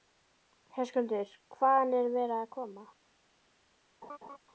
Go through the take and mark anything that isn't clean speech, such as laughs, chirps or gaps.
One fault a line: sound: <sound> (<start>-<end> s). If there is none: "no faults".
sound: laugh (4.0-4.4 s)